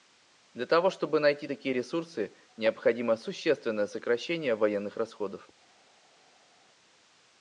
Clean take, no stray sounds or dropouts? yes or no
yes